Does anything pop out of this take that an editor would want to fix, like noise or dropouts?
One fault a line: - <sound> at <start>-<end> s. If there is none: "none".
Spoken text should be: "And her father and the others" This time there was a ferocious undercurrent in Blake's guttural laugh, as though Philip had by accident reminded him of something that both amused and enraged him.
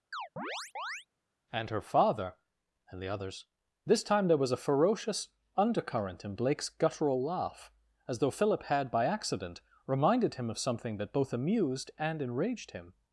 - chirp at 0.1-1.1 s